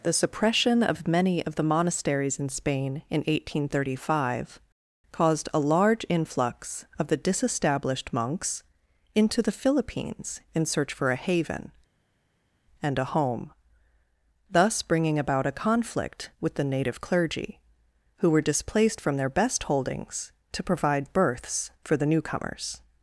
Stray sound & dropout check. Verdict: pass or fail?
pass